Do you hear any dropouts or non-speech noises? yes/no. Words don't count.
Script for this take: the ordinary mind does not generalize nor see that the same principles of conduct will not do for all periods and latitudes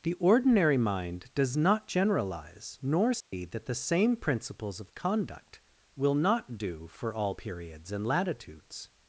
yes